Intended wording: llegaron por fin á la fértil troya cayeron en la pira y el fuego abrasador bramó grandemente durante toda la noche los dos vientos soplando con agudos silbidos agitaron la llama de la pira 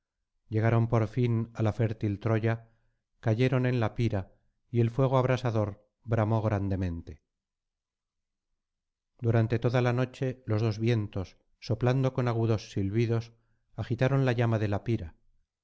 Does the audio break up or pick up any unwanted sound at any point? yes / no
no